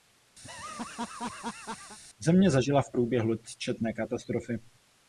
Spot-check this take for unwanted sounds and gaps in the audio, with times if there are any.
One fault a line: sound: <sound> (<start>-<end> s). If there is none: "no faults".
sound: laugh (0.4-2.0 s)